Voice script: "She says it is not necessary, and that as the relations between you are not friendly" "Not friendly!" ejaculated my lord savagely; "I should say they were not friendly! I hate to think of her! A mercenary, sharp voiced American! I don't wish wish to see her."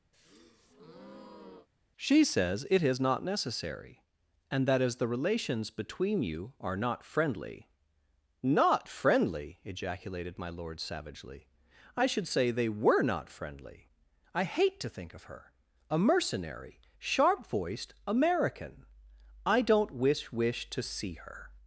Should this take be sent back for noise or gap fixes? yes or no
yes